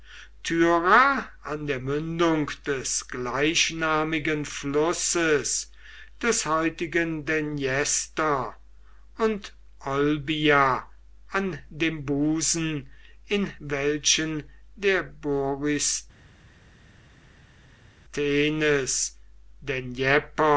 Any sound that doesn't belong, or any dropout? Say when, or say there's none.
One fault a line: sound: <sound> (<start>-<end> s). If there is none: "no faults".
no faults